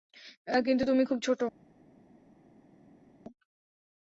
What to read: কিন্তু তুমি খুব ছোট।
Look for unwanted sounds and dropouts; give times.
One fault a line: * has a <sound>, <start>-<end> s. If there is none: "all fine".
all fine